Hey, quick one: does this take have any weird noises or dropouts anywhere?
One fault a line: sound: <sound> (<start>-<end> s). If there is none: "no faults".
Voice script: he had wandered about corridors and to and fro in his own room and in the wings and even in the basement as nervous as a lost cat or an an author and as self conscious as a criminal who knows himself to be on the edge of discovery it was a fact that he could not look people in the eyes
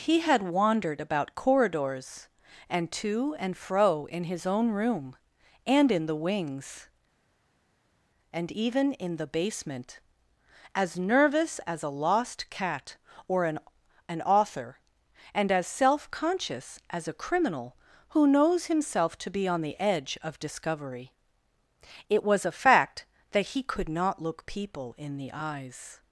no faults